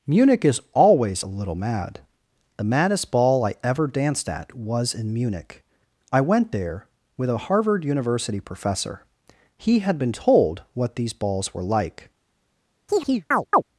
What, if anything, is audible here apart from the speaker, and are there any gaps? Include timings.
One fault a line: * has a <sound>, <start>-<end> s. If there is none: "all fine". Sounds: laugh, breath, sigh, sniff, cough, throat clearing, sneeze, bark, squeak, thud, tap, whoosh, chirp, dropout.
* has a chirp, 12.9-13.6 s